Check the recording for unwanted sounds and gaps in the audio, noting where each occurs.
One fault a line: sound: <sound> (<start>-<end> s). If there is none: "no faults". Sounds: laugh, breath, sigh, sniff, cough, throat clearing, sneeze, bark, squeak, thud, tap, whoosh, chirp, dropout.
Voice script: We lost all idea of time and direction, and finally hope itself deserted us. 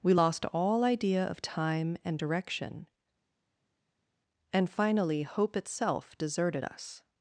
no faults